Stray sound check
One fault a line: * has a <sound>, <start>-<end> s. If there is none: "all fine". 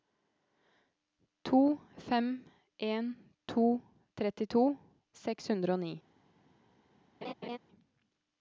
* has a laugh, 7.2-7.6 s